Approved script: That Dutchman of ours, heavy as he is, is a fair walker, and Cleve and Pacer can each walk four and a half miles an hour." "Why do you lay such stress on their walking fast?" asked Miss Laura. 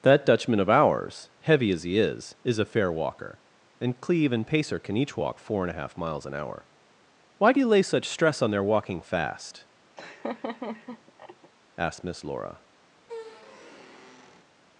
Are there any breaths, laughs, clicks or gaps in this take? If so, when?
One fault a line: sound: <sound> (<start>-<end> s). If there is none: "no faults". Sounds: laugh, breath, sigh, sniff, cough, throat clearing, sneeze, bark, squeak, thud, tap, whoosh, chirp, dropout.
sound: laugh (10.0-11.5 s)
sound: squeak (13.0-14.5 s)